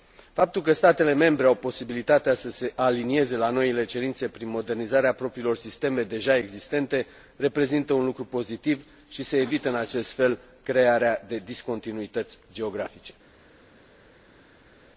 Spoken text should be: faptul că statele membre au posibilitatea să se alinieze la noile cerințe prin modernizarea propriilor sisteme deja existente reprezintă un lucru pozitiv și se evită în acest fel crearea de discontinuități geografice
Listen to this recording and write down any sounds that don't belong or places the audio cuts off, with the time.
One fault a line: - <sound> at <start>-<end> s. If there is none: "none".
none